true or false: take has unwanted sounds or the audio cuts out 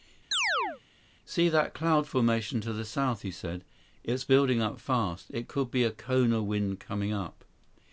true